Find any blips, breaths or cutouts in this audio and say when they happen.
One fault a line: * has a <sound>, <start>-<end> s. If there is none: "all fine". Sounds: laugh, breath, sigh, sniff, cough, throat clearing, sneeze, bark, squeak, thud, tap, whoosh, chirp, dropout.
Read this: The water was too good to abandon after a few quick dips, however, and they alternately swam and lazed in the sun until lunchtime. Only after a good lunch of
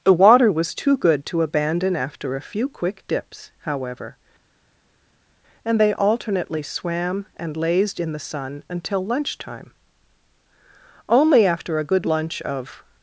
all fine